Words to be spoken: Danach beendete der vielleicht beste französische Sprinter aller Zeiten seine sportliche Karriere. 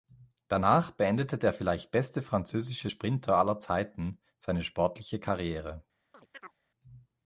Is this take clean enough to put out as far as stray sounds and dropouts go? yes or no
no